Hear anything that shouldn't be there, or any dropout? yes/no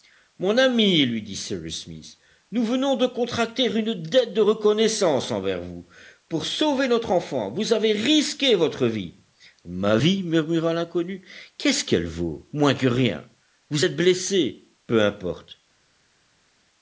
no